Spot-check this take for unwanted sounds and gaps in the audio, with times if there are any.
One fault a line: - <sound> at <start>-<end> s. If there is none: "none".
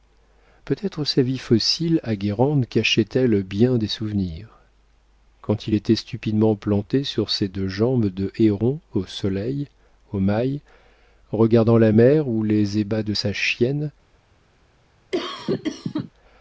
- cough at 15.1-16.1 s